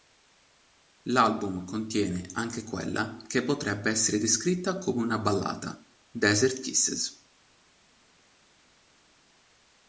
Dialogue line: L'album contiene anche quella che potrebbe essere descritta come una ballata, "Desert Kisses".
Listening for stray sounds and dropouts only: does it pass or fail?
pass